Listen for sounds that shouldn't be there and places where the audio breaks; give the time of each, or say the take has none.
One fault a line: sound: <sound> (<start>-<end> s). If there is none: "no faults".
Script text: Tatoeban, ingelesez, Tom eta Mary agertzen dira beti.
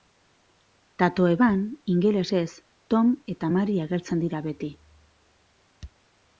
no faults